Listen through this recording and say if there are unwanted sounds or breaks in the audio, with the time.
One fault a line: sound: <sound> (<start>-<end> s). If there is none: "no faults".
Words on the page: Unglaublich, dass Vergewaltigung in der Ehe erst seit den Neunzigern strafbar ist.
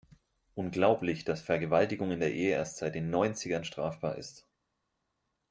no faults